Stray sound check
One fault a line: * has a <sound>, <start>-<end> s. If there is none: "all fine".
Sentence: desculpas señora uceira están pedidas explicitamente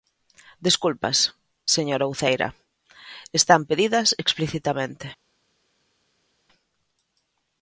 all fine